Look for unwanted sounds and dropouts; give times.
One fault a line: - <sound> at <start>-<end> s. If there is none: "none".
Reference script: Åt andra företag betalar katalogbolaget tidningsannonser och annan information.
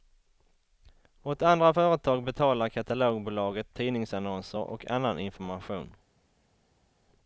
none